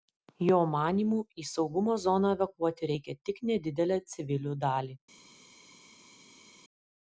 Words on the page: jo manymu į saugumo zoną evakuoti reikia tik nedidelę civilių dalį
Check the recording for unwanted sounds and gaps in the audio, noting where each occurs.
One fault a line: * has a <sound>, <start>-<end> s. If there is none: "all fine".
all fine